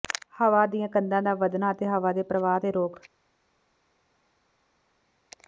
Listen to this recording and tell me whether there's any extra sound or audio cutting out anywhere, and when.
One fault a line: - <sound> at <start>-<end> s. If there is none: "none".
none